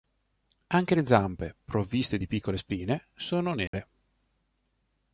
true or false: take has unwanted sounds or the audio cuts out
true